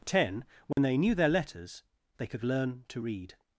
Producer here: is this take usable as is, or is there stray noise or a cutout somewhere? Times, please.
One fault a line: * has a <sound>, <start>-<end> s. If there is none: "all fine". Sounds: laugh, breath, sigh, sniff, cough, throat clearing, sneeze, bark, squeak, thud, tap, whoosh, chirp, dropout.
* has a dropout, 0.7-0.8 s